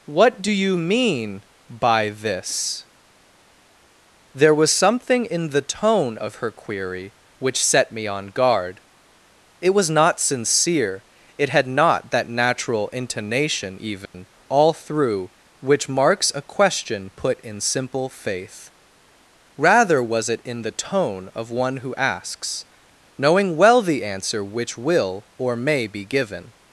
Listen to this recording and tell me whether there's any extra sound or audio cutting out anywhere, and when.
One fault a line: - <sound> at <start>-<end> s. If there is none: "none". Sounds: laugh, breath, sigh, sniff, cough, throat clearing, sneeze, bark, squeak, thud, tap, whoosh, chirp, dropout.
- dropout at 14.1-14.1 s